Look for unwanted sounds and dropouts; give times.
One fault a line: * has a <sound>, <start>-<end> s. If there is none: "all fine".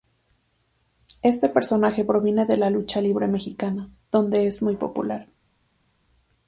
all fine